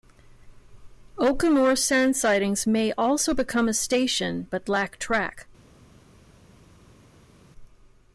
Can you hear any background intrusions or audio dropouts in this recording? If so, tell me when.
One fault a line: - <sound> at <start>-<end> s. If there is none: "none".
none